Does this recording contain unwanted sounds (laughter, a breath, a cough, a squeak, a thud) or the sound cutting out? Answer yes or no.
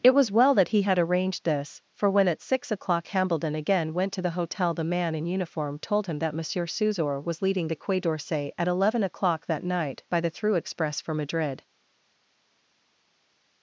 no